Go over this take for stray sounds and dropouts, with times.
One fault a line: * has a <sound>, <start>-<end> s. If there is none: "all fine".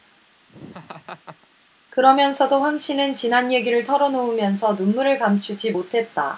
* has a laugh, 0.5-1.5 s